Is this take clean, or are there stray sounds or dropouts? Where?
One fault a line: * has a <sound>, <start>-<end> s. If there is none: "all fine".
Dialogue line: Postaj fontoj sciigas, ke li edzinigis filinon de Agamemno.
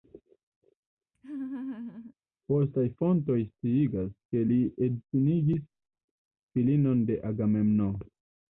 * has a laugh, 1.1-2.1 s